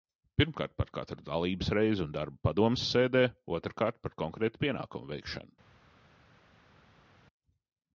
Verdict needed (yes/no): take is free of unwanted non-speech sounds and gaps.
yes